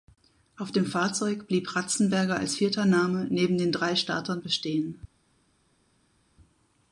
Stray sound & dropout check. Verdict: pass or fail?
pass